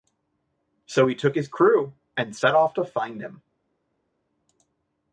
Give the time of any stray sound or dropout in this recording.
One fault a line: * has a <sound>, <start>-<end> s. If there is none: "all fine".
all fine